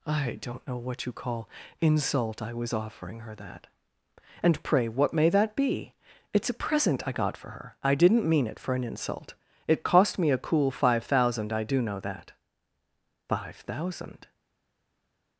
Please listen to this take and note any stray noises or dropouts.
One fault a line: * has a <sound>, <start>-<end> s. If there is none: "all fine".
all fine